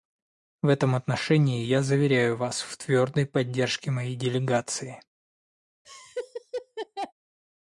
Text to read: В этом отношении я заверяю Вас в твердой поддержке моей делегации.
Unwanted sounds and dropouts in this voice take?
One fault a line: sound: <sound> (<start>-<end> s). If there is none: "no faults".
sound: laugh (5.8-7.1 s)